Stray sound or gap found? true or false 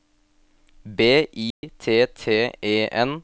true